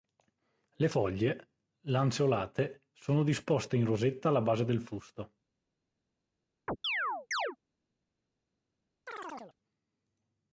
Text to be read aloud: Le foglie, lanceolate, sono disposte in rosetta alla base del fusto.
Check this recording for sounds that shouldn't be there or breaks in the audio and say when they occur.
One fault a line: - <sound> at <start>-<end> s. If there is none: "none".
- chirp at 6.7-7.6 s
- chirp at 9.1-9.6 s